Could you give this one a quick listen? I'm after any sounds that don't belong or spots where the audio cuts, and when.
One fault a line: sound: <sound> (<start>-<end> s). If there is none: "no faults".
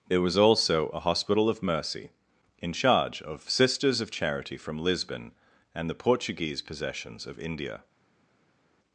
no faults